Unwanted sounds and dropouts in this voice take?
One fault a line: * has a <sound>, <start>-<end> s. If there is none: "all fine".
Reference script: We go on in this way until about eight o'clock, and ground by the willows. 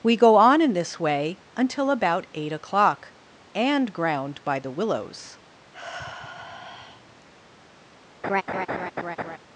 * has a sigh, 5.7-7.3 s
* has a laugh, 8.2-9.4 s